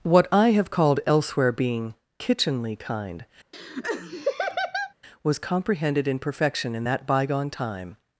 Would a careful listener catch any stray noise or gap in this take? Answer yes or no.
yes